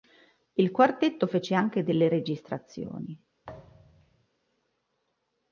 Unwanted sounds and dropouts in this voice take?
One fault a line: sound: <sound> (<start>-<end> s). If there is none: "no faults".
sound: thud (3.4-4.3 s)